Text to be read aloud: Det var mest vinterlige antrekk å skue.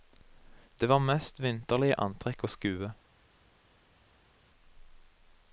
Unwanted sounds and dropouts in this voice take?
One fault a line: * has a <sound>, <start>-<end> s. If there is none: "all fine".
all fine